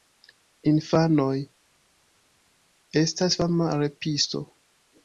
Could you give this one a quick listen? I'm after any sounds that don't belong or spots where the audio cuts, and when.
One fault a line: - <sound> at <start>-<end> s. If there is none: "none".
none